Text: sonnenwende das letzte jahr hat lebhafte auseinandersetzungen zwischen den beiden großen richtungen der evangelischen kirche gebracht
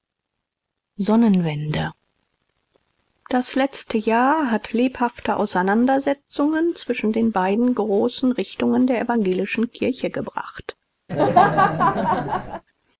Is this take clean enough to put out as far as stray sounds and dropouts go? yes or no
no